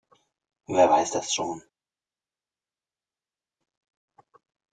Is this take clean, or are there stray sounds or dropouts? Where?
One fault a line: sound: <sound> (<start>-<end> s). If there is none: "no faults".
no faults